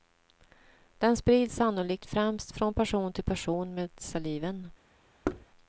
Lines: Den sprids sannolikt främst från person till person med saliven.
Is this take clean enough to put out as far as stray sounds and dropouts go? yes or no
no